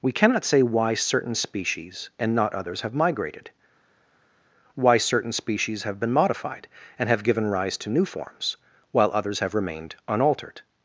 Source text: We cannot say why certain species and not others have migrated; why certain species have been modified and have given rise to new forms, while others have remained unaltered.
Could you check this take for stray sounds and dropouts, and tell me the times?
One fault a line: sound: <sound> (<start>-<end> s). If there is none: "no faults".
no faults